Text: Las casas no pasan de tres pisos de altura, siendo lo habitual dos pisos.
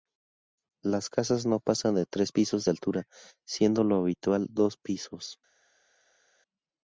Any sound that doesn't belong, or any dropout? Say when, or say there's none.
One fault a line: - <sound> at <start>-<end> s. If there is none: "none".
none